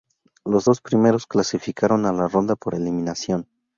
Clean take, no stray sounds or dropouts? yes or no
yes